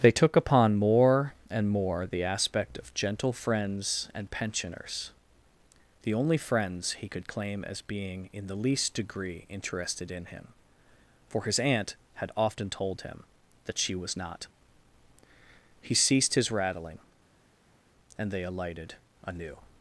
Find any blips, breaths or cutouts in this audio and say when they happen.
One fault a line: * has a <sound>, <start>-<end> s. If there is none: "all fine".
all fine